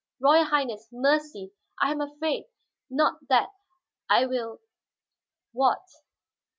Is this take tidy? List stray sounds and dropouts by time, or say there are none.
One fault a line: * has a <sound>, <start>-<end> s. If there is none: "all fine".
all fine